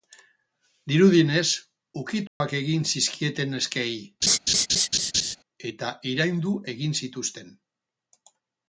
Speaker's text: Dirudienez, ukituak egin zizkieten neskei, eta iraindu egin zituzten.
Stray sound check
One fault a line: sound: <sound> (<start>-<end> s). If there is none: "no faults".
sound: dropout (2.3-2.4 s)
sound: laugh (4.2-5.4 s)